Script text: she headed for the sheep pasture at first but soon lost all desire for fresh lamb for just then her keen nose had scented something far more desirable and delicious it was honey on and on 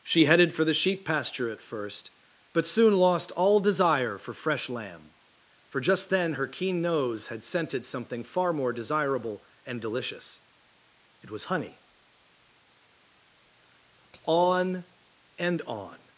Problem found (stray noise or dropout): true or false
false